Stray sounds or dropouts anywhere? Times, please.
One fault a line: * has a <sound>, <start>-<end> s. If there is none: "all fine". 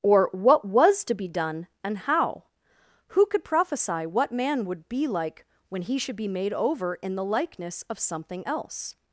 all fine